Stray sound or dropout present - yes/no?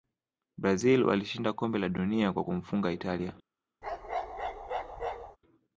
yes